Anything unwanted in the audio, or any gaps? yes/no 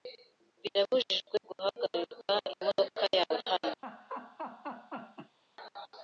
yes